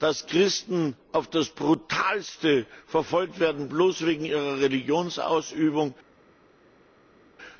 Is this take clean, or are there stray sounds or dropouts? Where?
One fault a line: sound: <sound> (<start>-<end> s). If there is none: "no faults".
no faults